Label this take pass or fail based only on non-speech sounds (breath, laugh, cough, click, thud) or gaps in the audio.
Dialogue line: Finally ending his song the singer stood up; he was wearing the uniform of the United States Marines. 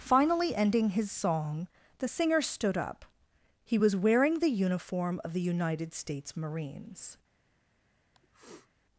fail